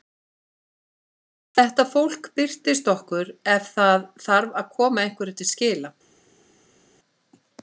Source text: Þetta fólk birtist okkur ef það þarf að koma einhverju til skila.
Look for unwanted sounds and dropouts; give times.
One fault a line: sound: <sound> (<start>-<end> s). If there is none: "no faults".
no faults